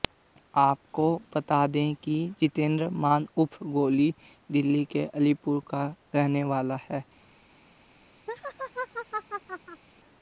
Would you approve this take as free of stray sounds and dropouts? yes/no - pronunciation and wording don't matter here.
no